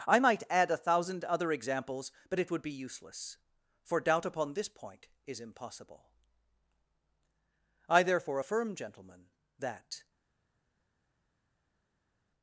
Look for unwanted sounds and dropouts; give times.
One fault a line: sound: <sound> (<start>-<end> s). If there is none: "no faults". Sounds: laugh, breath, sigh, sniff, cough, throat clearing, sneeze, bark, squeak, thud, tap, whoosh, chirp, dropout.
no faults